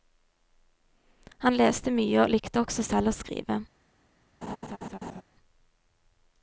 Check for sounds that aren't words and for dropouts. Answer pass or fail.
fail